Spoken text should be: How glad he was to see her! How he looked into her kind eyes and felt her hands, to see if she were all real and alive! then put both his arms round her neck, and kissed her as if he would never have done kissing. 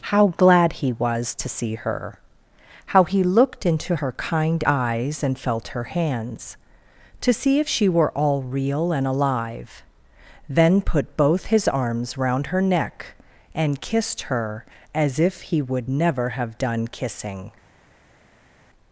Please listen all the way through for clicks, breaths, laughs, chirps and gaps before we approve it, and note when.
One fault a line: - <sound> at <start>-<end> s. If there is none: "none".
none